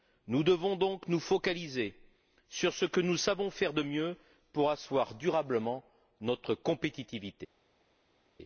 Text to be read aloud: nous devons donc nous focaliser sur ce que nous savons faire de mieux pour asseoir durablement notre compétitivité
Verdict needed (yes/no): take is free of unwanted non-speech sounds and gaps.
yes